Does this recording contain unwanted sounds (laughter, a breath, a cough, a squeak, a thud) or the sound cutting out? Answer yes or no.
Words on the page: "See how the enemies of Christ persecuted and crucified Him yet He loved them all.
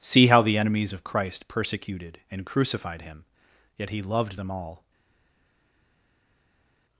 no